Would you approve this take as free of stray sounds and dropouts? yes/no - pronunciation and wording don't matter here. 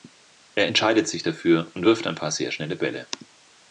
yes